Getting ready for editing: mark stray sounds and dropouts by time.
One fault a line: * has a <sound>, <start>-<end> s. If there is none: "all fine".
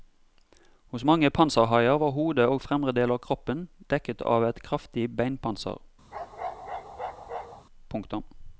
* has a bark, 6.1-7.7 s